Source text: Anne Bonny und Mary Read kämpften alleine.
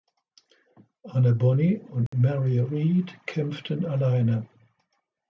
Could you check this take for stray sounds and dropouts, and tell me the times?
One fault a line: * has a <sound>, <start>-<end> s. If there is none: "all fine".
* has a dropout, 2.1-2.1 s